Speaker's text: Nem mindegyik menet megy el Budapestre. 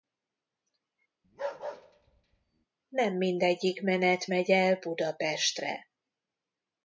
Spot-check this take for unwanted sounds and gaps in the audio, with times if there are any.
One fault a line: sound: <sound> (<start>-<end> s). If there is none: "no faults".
sound: bark (1.2-2.7 s)